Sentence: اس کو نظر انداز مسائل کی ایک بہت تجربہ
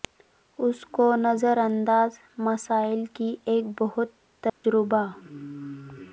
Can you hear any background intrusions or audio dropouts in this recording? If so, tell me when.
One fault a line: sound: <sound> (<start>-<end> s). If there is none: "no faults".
sound: dropout (4.5-4.6 s)